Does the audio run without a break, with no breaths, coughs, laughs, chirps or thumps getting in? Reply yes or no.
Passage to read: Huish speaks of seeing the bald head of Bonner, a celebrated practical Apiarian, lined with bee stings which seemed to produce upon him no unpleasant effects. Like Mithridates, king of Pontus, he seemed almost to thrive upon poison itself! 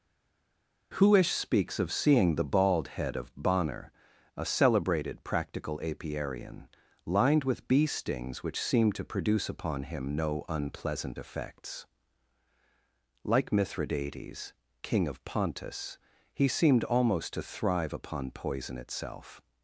yes